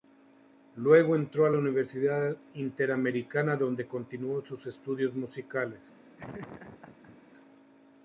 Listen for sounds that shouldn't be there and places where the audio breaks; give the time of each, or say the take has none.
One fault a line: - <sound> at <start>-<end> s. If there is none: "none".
- laugh at 6.2-7.2 s